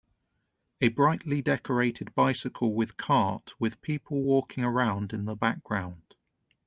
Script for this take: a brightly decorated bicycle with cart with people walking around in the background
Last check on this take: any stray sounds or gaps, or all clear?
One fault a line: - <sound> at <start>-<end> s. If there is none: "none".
none